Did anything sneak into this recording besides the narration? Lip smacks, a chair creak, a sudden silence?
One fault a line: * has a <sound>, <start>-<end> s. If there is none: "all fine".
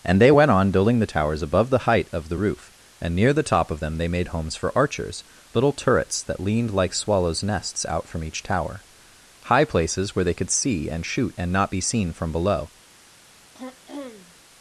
* has a throat clearing, 13.5-14.4 s